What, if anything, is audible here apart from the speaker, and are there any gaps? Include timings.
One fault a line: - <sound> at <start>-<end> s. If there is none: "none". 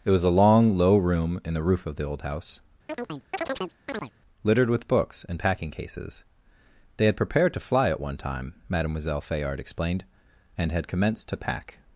- chirp at 2.9-4.1 s